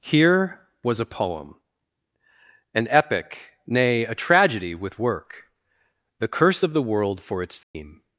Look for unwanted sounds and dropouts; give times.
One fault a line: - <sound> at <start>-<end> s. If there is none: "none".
- dropout at 7.6-7.7 s